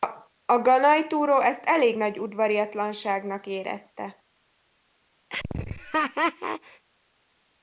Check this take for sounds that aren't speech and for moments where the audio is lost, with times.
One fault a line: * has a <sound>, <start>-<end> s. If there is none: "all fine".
* has a laugh, 5.3-6.8 s